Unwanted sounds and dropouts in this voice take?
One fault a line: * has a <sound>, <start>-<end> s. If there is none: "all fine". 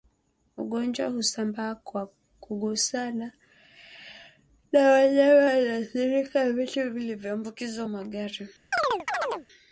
* has a chirp, 8.7-9.5 s